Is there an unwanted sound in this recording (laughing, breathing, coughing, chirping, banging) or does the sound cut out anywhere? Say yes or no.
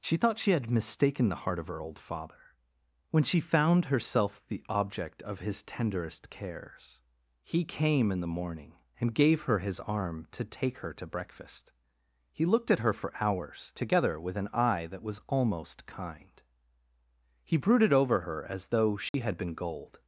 yes